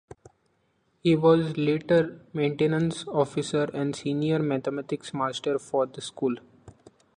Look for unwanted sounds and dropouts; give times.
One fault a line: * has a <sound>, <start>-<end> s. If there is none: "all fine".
all fine